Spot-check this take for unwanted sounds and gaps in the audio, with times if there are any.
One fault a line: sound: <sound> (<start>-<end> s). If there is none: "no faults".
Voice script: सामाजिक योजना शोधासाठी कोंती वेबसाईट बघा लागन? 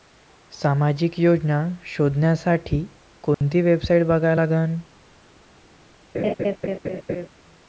sound: dropout (3.3-3.4 s)
sound: laugh (6.1-7.3 s)